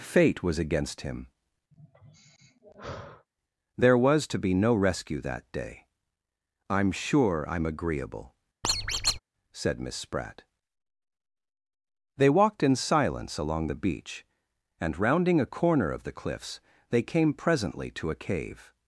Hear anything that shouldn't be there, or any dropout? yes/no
yes